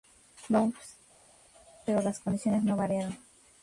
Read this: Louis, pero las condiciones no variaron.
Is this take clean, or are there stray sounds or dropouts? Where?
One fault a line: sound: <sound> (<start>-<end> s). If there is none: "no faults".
no faults